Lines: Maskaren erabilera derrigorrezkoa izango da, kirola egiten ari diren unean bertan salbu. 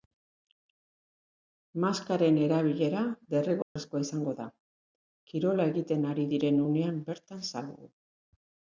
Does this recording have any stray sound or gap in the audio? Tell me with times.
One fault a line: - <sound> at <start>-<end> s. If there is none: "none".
- dropout at 3.6-3.8 s